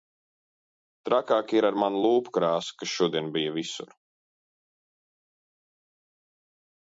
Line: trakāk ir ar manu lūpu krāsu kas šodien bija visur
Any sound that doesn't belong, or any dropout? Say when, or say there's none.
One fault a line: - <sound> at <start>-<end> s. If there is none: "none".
none